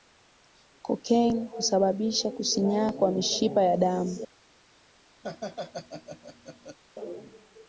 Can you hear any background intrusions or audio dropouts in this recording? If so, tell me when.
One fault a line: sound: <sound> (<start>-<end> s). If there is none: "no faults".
sound: laugh (5.2-6.8 s)